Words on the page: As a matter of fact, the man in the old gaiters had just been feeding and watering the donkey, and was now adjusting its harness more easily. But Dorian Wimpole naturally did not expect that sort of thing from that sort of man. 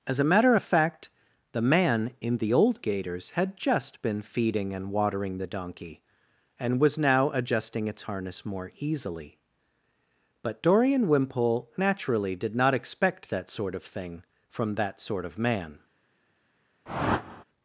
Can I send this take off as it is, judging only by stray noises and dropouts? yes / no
no